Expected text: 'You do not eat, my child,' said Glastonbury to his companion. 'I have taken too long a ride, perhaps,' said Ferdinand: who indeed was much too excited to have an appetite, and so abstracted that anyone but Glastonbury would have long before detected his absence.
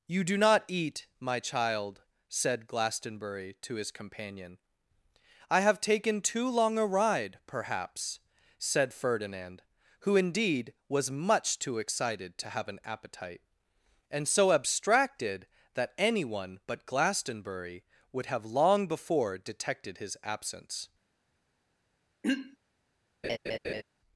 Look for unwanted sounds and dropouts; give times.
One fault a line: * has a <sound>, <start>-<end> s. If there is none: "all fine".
* has a throat clearing, 22.2-22.6 s
* has a laugh, 23.2-23.8 s